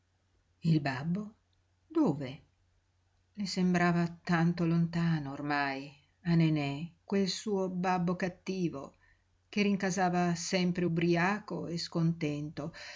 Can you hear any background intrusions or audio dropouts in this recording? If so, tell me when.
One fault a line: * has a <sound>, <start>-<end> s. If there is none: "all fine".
all fine